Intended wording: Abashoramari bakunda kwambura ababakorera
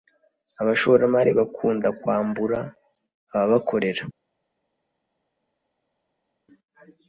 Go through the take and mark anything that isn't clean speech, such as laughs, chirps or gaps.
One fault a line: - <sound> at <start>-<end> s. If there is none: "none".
none